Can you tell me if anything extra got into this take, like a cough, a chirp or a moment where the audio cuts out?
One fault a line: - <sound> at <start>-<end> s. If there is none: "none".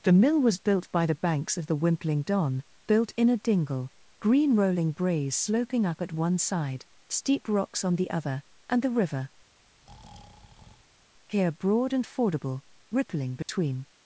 - breath at 9.6-11.1 s
- dropout at 13.4-13.5 s